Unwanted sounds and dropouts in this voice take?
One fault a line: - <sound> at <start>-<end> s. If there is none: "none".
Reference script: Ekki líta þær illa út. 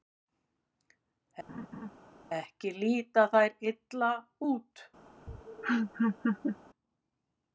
- laugh at 1.5-1.9 s
- laugh at 5.3-6.6 s